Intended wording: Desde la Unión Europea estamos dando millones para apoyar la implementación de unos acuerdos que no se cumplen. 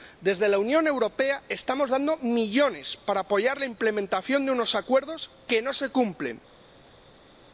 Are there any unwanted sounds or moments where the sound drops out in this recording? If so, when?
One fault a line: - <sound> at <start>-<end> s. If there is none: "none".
none